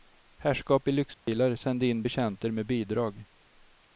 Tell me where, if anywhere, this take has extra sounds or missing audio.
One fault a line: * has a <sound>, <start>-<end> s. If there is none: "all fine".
* has a dropout, 1.1-1.3 s